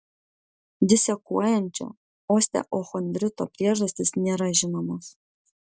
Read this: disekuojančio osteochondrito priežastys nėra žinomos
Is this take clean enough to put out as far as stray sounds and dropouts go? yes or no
yes